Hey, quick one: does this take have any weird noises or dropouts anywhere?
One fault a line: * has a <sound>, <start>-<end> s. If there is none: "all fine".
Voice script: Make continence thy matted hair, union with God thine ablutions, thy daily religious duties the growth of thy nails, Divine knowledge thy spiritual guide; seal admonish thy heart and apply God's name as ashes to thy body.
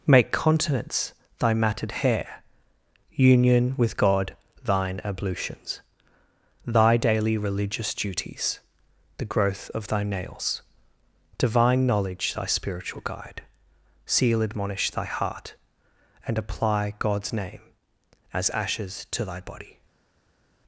all fine